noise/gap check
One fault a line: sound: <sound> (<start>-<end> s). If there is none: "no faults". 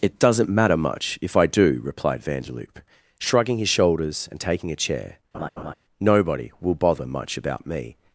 sound: laugh (5.3-5.7 s)